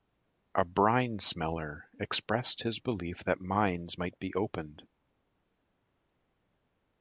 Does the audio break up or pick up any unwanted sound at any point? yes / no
no